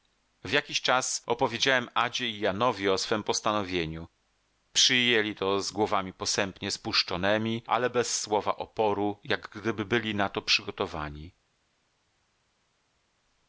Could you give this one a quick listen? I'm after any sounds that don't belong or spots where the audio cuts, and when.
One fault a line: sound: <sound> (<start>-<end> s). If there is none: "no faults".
no faults